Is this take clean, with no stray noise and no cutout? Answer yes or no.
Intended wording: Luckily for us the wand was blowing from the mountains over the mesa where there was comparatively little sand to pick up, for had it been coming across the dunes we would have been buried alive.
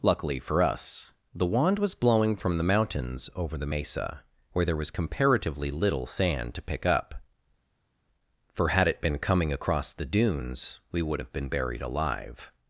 yes